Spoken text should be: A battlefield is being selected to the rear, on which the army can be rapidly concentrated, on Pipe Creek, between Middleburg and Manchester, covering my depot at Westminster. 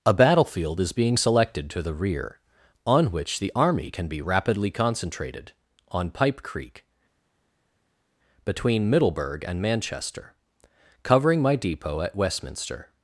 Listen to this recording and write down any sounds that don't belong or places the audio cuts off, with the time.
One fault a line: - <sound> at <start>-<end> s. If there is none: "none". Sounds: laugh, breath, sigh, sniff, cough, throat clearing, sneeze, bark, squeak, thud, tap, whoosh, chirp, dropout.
none